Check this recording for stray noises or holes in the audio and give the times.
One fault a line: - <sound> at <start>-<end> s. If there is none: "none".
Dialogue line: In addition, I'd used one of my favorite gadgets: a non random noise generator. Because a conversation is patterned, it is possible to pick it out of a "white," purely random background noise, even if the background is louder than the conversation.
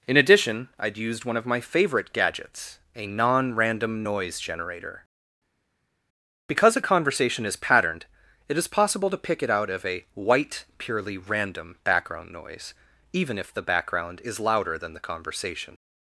none